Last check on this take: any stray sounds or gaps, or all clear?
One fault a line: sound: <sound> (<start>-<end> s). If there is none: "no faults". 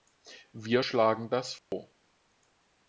sound: dropout (1.6-1.7 s)